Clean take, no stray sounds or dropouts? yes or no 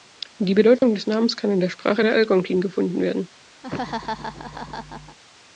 no